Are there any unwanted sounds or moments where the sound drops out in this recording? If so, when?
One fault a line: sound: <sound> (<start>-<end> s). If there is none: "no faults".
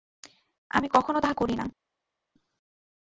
no faults